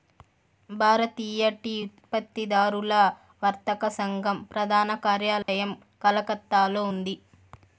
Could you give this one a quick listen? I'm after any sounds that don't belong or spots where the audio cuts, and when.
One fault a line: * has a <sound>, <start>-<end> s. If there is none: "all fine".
* has a dropout, 5.4-5.5 s